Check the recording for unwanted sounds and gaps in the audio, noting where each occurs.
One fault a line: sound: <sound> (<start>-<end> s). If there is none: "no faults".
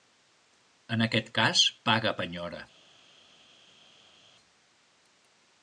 no faults